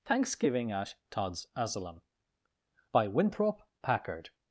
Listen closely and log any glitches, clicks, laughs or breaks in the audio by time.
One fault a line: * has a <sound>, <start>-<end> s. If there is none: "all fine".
all fine